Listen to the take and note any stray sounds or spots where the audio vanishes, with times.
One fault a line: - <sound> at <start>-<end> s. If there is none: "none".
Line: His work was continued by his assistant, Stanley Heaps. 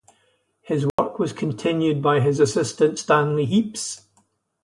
- dropout at 0.9-1.0 s